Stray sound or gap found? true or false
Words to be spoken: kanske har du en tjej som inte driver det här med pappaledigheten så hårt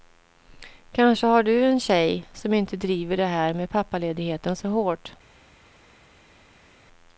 false